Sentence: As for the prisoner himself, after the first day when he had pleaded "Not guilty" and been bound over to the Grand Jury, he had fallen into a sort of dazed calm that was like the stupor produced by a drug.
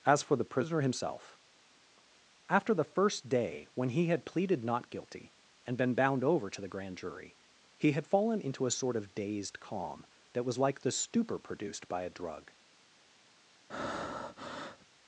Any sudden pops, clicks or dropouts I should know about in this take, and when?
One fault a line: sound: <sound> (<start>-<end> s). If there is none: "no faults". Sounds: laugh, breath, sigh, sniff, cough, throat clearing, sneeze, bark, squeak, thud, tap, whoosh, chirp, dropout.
sound: breath (13.7-14.9 s)